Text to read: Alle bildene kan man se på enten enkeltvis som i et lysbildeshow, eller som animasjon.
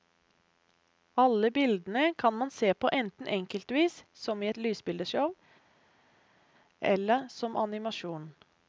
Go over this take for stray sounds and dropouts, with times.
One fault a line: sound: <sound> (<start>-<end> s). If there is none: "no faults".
no faults